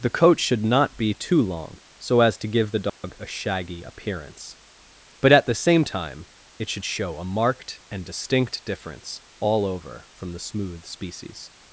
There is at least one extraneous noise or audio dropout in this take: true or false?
true